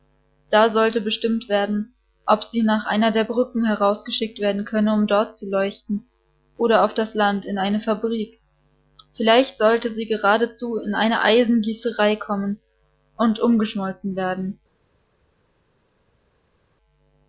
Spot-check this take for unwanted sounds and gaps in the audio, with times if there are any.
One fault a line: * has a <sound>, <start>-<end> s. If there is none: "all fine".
all fine